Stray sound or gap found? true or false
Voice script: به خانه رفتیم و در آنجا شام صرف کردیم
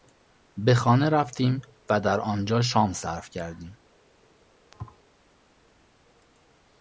true